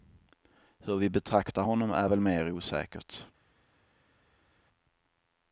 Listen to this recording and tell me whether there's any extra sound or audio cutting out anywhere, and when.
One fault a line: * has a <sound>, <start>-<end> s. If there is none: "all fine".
all fine